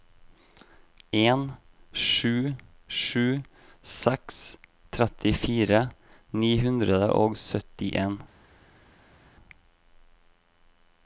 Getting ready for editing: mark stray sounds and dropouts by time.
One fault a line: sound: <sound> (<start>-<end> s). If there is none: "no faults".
no faults